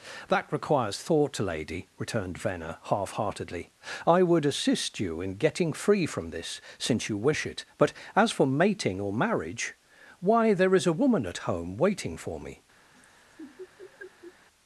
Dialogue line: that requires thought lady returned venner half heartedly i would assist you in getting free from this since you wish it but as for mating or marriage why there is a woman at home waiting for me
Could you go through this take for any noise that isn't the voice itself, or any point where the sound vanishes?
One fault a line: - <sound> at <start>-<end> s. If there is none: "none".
- laugh at 12.9-14.3 s